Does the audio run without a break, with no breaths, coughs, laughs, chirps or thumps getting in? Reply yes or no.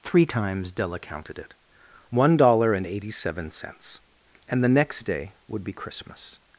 yes